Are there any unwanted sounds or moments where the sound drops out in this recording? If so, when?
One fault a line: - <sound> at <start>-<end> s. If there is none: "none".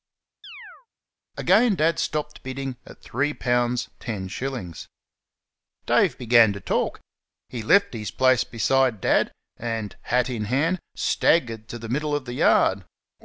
- chirp at 0.4-0.9 s